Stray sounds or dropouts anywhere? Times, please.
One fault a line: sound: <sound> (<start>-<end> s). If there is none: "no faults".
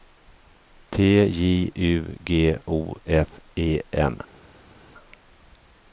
no faults